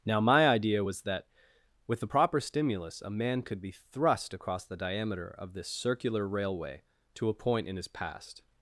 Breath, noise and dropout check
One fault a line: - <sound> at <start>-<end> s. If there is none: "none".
none